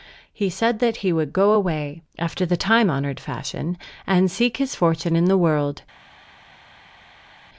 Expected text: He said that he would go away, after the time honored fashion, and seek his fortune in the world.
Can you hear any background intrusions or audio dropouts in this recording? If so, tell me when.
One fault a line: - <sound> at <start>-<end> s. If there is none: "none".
none